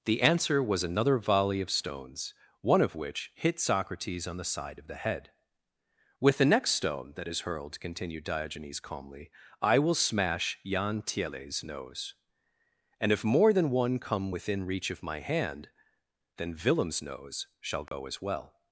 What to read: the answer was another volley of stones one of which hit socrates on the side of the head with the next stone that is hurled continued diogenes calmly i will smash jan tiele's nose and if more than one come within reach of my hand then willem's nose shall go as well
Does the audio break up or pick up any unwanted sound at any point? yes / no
yes